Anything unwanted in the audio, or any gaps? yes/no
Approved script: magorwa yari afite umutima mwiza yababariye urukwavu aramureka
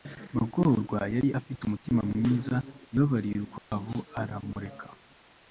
yes